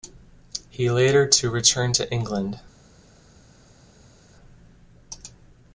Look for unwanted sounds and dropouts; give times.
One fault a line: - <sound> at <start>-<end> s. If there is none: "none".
none